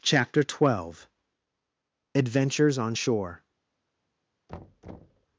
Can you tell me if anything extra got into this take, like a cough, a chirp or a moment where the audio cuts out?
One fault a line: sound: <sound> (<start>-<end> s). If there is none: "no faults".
sound: thud (4.5-5.3 s)